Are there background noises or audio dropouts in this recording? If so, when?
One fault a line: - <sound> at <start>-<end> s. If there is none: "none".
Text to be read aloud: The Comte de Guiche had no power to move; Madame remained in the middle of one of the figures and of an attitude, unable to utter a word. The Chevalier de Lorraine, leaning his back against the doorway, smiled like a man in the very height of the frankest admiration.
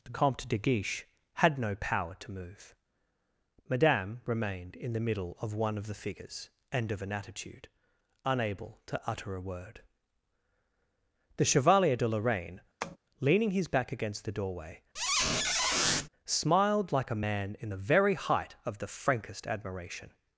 - tap at 12.8-13.0 s
- squeak at 15.0-16.1 s